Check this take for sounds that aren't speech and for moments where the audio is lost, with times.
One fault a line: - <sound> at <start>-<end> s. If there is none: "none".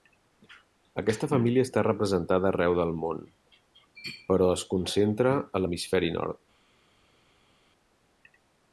none